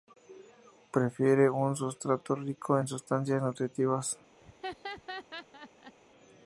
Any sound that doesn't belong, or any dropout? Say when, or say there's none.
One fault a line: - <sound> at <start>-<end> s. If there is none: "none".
- laugh at 4.4-5.9 s